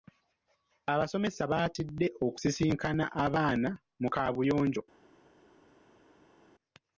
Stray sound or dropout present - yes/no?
no